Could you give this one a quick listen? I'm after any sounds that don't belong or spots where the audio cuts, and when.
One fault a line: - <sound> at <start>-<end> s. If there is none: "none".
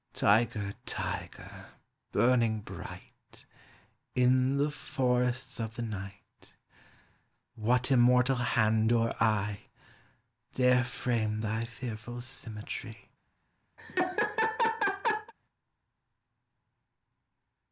- laugh at 13.8-15.3 s